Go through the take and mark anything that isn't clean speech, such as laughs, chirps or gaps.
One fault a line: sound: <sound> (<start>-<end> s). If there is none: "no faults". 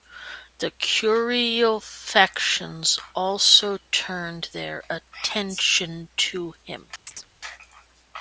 sound: chirp (7.1-7.3 s)